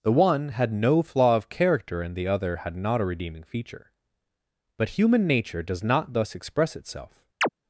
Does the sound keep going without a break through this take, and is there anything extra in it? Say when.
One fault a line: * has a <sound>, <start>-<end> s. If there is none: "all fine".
* has a chirp, 7.4-7.5 s